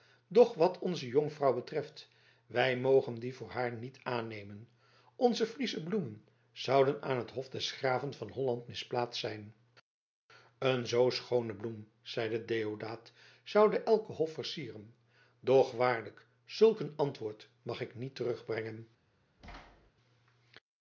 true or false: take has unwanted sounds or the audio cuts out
true